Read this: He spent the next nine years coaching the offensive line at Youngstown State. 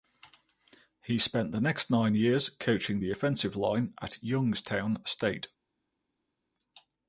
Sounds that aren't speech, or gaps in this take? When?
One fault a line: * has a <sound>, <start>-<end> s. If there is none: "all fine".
all fine